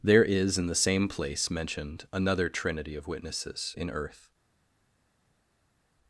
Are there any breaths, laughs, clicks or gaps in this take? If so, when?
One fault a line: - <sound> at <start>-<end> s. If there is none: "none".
none